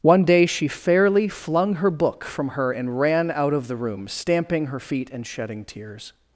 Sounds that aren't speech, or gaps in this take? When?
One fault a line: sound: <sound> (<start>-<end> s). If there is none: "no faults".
no faults